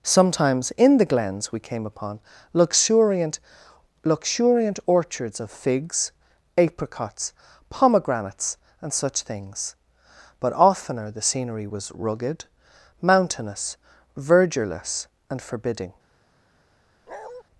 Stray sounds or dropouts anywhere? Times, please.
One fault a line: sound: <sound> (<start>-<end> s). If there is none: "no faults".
sound: bark (17.1-17.4 s)